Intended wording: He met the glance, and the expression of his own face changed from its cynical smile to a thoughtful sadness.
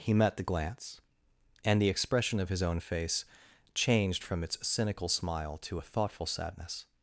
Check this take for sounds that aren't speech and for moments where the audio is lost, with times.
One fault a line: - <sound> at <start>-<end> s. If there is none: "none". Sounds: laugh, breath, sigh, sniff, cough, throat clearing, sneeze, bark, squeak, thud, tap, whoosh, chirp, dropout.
none